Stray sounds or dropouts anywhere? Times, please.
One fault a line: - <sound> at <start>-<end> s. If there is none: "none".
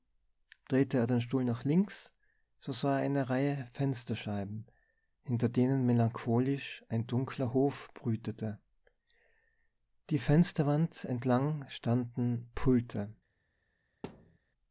- thud at 14.0-14.4 s